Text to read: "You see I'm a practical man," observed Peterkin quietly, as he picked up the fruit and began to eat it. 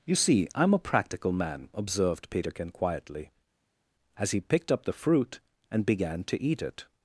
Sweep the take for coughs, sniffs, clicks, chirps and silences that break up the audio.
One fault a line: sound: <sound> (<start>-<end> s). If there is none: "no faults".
no faults